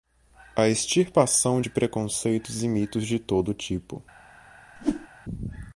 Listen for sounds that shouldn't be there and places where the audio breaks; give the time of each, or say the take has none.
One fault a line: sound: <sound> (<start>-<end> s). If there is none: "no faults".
sound: whoosh (4.8-5.1 s)